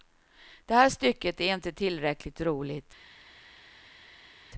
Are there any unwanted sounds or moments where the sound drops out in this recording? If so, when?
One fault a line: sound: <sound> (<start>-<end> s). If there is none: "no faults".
no faults